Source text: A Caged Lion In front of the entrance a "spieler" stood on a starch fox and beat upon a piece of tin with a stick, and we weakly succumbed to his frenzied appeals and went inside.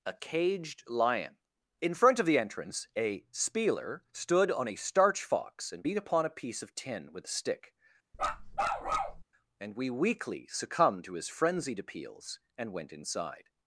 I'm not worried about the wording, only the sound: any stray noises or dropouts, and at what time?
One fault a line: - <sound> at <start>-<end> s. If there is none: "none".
- bark at 8.1-9.2 s